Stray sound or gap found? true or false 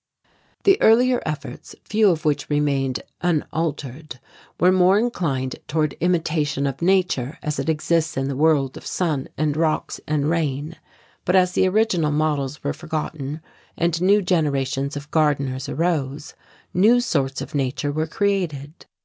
false